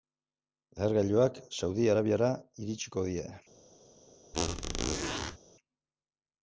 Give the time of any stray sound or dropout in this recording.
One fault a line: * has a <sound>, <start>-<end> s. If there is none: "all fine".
* has a squeak, 4.3-5.4 s